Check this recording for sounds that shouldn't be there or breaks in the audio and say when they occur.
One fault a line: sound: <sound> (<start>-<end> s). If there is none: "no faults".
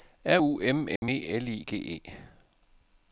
sound: dropout (1.0-1.0 s)